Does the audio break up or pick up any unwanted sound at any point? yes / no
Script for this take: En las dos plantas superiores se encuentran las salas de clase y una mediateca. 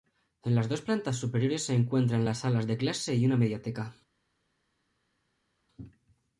no